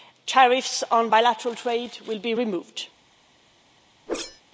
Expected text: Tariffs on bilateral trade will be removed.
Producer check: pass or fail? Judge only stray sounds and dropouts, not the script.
fail